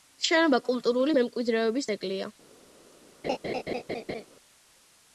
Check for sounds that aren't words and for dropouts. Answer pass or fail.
fail